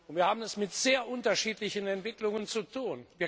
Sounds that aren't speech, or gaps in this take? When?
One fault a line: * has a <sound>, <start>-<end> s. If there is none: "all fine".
all fine